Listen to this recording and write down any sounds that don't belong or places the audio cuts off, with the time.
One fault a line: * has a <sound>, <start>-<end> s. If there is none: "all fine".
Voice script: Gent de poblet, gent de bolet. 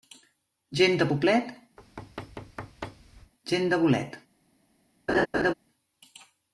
* has a thud, 1.8-3.3 s
* has a laugh, 5.1-5.5 s